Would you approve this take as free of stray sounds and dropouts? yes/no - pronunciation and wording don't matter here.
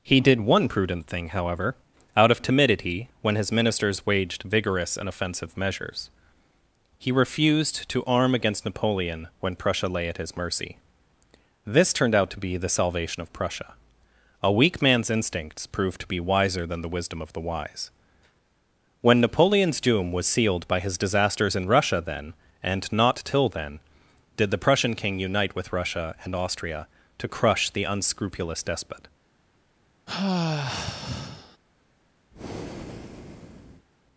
no